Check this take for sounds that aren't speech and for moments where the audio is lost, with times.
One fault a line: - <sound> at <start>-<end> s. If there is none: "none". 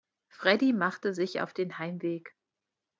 none